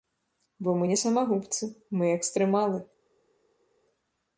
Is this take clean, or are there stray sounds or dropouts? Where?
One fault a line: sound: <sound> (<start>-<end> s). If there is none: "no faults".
no faults